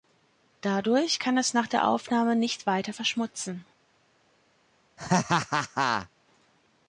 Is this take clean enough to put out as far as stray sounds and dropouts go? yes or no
no